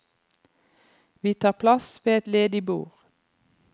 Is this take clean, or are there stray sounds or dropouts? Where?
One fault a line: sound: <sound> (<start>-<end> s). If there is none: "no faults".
no faults